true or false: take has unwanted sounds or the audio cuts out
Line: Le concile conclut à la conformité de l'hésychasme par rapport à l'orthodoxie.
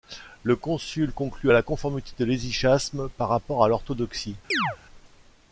true